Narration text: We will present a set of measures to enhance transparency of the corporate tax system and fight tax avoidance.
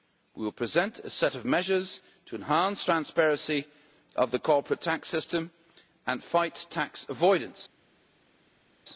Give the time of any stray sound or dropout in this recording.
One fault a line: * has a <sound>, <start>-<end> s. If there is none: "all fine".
all fine